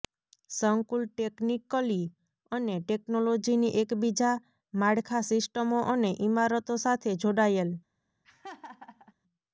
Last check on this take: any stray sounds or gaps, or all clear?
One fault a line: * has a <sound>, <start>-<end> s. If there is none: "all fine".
* has a laugh, 8.2-9.1 s